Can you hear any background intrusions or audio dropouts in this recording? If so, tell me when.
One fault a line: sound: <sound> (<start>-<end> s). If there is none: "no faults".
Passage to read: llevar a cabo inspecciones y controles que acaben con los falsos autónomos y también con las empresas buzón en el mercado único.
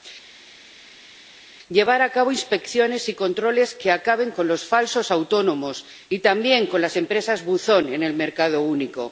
no faults